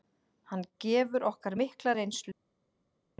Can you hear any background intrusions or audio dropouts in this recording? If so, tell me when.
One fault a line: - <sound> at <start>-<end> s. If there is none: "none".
none